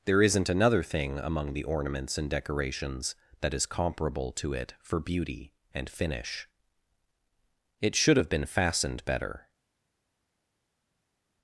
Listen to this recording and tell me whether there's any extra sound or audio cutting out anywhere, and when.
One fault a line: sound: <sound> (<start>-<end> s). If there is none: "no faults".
no faults